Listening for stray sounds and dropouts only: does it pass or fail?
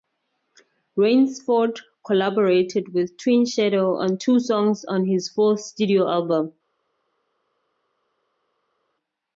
pass